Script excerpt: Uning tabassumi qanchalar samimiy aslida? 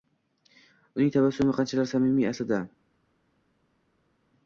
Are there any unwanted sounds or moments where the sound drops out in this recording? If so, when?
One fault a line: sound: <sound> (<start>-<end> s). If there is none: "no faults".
no faults